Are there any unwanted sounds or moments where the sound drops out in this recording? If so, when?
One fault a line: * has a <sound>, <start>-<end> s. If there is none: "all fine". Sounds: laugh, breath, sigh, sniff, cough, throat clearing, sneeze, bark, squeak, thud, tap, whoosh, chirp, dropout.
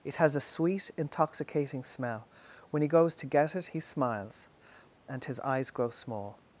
all fine